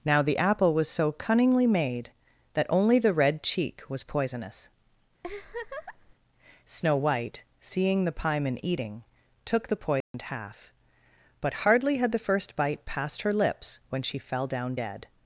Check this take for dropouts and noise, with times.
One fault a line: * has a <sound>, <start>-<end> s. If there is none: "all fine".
* has a laugh, 5.2-6.1 s
* has a dropout, 10.0-10.1 s